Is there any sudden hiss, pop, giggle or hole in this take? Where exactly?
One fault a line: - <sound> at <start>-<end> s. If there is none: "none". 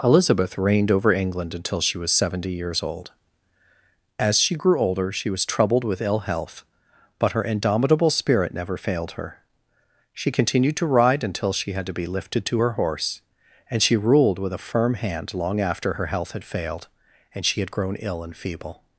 none